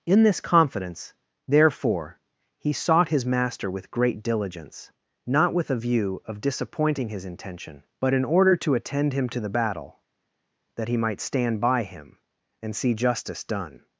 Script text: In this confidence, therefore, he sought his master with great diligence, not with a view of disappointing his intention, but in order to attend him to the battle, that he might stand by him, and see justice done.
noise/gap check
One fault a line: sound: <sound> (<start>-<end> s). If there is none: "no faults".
no faults